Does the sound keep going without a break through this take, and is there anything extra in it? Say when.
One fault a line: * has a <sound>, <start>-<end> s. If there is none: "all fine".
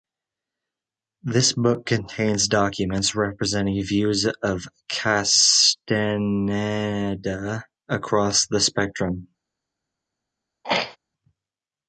* has a throat clearing, 10.6-11.0 s